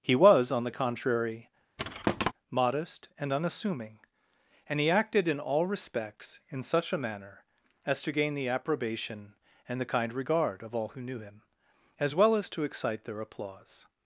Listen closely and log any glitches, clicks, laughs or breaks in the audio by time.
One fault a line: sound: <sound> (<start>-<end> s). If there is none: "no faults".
sound: thud (1.8-2.3 s)